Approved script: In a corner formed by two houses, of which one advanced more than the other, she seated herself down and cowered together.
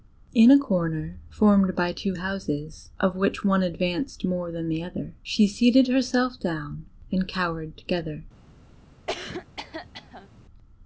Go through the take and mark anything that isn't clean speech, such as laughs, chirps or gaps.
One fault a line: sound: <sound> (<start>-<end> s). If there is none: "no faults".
sound: cough (9.1-10.3 s)